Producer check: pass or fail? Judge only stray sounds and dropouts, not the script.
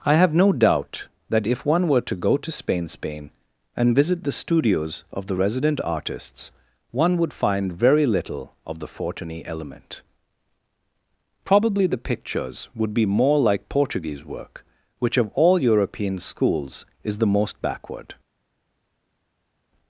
pass